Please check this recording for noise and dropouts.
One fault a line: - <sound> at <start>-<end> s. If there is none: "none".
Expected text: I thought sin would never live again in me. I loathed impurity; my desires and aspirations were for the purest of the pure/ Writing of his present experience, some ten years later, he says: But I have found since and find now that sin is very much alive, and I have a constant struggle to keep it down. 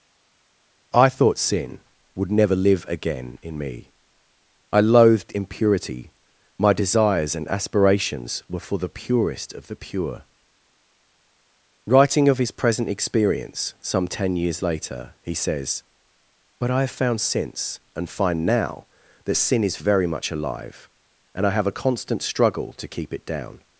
none